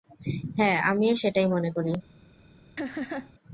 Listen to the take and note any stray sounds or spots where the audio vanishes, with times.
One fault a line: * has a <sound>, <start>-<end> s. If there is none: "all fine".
* has a laugh, 2.8-3.3 s